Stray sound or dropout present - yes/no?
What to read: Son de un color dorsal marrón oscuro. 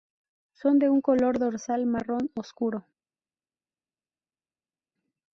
no